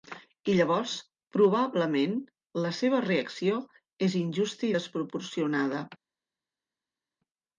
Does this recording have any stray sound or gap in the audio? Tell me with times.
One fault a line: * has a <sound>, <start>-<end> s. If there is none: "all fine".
all fine